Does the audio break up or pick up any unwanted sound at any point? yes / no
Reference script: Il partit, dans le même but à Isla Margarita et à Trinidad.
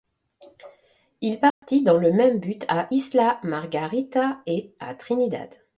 yes